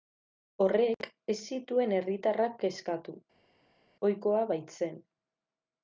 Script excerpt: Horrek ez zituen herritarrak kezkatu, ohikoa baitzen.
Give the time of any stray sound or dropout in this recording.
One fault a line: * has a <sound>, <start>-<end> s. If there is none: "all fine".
all fine